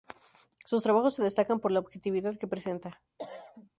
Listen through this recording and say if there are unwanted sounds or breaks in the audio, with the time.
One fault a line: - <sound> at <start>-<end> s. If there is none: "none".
- cough at 3.2-3.7 s